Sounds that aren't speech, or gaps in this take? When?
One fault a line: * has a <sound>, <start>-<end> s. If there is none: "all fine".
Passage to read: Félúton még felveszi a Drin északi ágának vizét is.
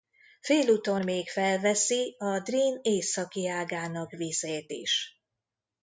all fine